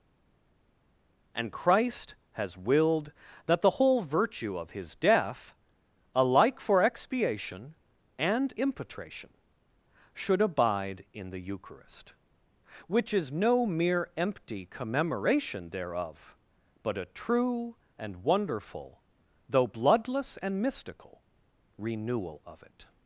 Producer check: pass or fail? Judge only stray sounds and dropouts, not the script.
pass